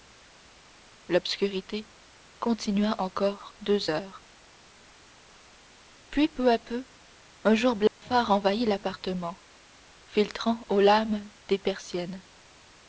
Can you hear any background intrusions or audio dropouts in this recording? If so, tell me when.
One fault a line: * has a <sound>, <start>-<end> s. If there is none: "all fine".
* has a dropout, 7.9-8.0 s